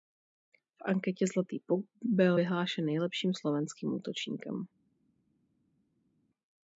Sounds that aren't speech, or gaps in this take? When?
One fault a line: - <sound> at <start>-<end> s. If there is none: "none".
none